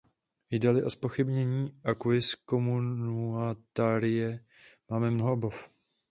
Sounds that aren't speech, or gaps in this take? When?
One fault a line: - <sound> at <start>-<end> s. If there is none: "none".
none